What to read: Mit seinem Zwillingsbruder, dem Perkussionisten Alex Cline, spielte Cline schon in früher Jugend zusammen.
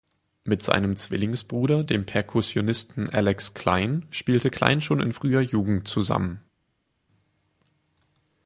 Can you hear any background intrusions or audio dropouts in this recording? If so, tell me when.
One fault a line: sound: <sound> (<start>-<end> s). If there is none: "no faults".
no faults